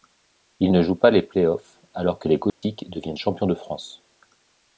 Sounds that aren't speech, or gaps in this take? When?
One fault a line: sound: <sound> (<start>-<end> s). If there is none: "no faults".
sound: dropout (2.5-2.6 s)